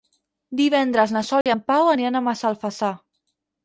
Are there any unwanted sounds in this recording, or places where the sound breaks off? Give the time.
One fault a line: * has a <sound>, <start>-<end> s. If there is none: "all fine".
* has a dropout, 1.4-1.5 s